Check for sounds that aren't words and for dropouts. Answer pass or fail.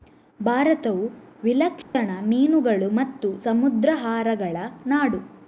fail